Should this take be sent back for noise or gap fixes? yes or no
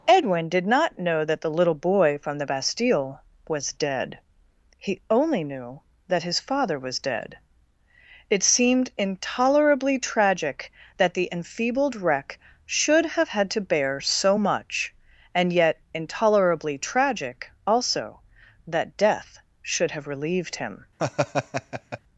yes